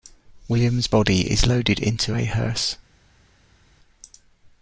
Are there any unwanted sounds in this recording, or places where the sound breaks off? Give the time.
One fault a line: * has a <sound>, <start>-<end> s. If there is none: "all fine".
all fine